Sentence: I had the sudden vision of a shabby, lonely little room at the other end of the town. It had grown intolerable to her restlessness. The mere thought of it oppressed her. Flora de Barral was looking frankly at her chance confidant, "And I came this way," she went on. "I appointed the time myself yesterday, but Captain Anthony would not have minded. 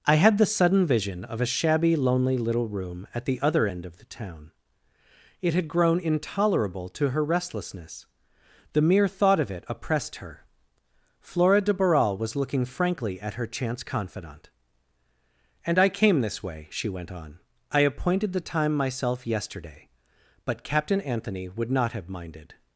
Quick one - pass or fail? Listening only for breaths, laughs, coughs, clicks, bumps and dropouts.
pass